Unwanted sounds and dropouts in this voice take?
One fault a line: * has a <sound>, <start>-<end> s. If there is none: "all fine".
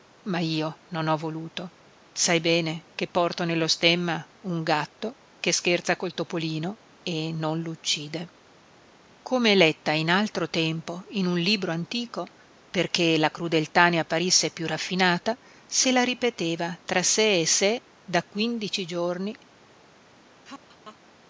* has a laugh, 20.4-21.0 s